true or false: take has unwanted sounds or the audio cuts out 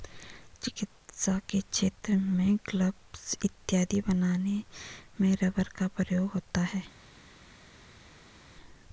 false